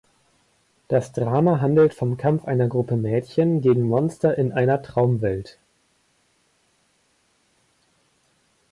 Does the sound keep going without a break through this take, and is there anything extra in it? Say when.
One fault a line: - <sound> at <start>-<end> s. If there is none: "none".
none